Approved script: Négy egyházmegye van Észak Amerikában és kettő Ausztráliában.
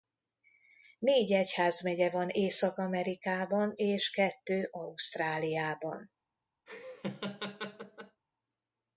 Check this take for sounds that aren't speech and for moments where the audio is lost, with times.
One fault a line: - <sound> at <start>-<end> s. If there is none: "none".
- laugh at 6.7-8.2 s